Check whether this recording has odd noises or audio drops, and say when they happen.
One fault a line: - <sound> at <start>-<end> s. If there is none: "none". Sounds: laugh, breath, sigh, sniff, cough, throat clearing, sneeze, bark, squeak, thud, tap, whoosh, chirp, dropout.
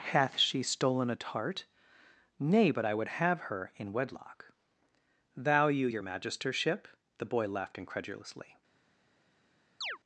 - chirp at 9.8-10.0 s